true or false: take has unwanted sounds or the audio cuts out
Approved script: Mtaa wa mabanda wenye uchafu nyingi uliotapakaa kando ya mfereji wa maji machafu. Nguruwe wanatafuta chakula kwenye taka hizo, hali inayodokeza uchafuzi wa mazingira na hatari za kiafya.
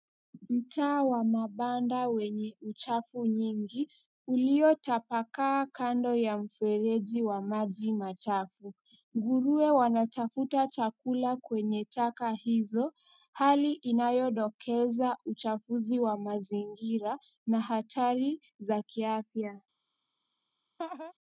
true